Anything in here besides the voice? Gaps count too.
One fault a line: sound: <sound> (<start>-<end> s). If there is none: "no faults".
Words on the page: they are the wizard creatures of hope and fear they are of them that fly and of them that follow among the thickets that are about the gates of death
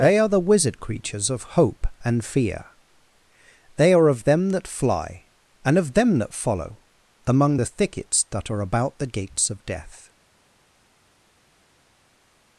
no faults